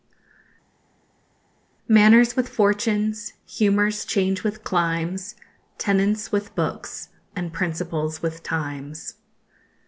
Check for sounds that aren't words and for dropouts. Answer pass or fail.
pass